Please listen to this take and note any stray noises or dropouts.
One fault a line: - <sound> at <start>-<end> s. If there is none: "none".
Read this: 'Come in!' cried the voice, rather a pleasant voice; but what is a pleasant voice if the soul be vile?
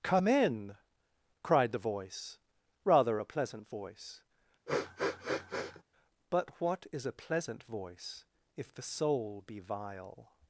- sniff at 4.7-5.8 s